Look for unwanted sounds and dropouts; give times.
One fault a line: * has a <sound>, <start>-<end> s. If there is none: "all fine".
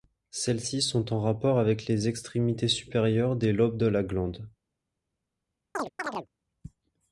* has a chirp, 5.7-6.3 s